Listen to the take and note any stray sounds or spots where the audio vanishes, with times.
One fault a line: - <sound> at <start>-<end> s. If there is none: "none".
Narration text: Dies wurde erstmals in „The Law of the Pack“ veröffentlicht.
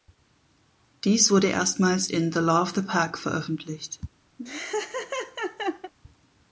- laugh at 4.4-5.9 s